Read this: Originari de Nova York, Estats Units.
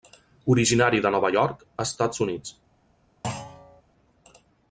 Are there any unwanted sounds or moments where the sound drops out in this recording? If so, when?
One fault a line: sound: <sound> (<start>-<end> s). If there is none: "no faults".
sound: thud (3.2-3.8 s)